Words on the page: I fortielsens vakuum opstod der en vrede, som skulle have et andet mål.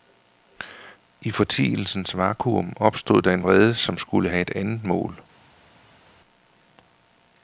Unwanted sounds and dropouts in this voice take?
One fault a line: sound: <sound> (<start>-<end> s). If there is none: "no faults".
no faults